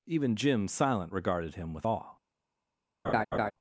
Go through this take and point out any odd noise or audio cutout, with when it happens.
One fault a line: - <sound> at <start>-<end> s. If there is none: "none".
- laugh at 3.0-3.5 s